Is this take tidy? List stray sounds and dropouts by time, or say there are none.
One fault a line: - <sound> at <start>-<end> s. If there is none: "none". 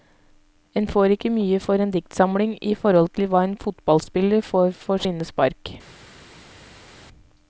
none